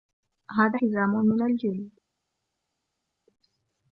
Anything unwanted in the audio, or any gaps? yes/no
no